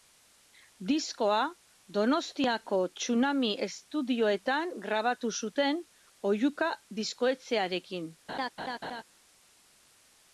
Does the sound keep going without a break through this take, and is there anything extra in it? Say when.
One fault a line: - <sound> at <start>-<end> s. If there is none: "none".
- laugh at 8.3-9.0 s